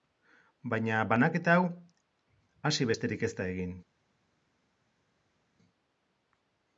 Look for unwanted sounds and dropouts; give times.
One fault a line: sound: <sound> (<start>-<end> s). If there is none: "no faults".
no faults